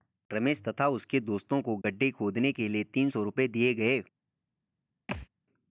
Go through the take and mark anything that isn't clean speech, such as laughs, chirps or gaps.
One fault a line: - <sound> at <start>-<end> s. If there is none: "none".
- dropout at 1.8-1.8 s
- thud at 5.1-5.3 s